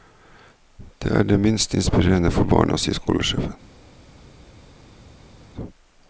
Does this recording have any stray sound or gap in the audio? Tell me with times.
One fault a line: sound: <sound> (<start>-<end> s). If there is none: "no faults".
no faults